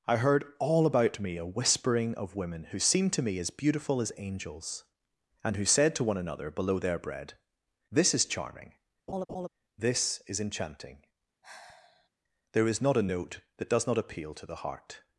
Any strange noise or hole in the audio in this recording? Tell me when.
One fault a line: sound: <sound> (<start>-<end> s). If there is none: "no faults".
sound: laugh (9.1-9.5 s)
sound: sigh (11.4-12.1 s)